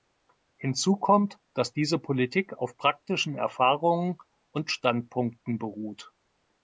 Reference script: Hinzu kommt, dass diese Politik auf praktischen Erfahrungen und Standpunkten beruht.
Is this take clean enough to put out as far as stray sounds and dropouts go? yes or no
yes